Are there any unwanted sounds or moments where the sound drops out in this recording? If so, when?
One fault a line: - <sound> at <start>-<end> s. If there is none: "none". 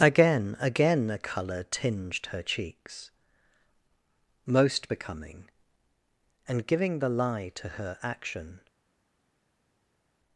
none